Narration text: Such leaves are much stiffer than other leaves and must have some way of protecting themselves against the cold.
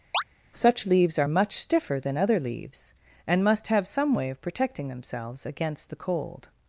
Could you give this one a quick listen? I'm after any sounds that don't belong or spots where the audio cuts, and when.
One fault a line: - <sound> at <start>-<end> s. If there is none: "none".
- chirp at 0.1-0.2 s